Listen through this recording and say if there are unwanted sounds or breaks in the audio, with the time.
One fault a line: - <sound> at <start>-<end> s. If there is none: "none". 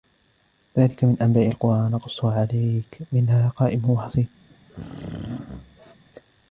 - throat clearing at 4.5-5.9 s